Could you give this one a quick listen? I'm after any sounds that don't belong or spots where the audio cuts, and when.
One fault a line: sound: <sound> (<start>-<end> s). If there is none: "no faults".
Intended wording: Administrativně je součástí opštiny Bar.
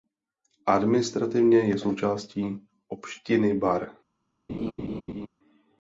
sound: laugh (4.5-5.3 s)